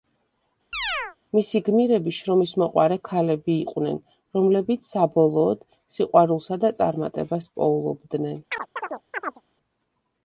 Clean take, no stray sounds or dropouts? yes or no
no